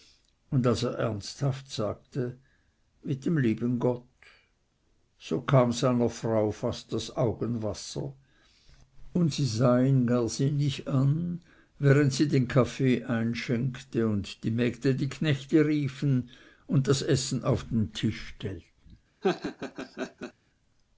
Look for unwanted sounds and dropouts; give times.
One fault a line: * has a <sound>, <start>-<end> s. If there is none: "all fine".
* has a laugh, 19.2-20.3 s